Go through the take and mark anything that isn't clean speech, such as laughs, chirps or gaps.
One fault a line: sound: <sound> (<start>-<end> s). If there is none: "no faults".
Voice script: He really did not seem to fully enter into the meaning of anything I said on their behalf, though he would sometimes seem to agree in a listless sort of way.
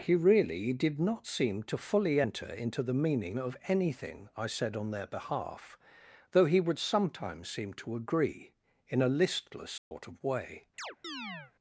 sound: dropout (9.8-9.9 s)
sound: chirp (10.8-11.5 s)